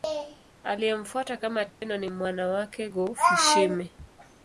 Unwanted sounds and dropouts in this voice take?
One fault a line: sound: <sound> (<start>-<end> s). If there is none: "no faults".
sound: dropout (1.7-1.8 s)